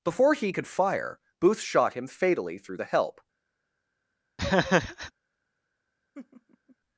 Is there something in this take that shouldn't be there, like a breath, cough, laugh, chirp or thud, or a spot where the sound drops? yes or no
yes